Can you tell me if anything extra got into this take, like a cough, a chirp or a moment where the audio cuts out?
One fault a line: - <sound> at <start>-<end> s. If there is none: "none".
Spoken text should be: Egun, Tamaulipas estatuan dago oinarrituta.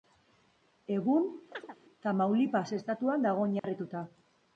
- chirp at 1.5-1.8 s
- dropout at 3.6-3.6 s